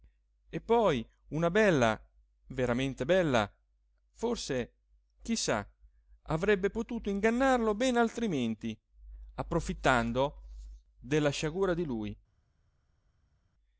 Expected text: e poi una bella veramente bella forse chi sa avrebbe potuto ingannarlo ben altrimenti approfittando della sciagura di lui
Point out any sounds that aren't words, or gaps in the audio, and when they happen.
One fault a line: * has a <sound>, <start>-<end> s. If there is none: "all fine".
all fine